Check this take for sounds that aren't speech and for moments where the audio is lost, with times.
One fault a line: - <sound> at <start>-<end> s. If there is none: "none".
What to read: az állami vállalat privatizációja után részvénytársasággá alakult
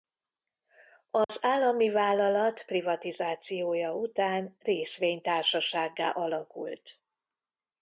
- dropout at 1.2-1.3 s